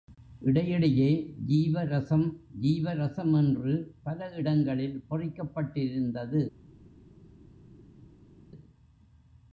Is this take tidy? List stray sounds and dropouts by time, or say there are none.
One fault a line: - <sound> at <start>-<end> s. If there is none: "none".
none